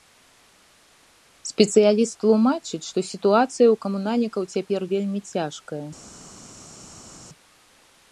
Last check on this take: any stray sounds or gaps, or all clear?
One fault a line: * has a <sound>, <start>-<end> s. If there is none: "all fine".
all fine